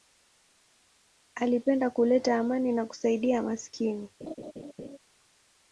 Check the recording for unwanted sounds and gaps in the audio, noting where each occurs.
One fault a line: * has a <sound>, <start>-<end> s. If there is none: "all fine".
* has a laugh, 4.2-5.0 s